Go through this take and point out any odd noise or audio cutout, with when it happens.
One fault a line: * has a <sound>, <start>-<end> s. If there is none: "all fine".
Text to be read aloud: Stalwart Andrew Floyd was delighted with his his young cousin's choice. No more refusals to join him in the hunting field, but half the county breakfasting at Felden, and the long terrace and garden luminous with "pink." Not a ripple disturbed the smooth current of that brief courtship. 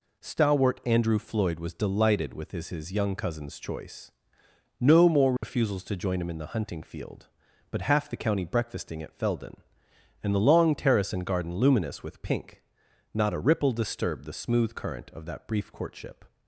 * has a dropout, 5.4-5.4 s